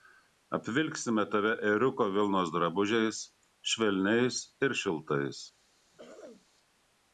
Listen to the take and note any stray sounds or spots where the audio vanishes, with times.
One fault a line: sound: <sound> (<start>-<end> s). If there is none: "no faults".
sound: throat clearing (5.9-6.5 s)